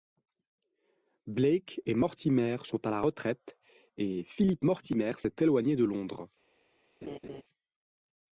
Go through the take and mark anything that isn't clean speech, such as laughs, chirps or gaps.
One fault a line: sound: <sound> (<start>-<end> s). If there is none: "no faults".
sound: laugh (7.0-7.4 s)